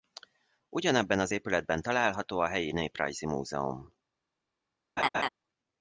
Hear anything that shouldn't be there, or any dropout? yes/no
yes